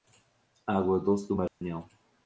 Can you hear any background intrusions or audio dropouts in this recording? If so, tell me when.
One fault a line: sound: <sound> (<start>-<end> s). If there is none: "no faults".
sound: dropout (1.5-1.6 s)